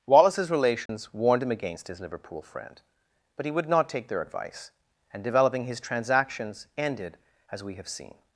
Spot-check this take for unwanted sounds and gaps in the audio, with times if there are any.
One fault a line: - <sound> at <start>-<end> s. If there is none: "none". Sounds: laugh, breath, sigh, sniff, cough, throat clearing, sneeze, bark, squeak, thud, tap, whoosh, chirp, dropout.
- dropout at 0.9-0.9 s